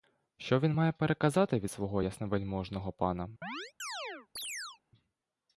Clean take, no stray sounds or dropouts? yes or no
no